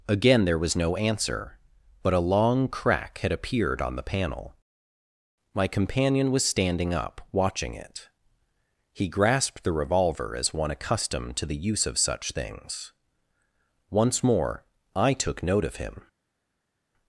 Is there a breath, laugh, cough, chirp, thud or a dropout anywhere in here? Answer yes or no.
no